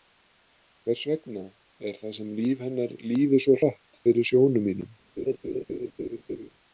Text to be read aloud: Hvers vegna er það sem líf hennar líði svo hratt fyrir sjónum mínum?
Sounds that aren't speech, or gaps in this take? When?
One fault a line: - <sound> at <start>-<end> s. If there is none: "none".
- laugh at 5.2-6.5 s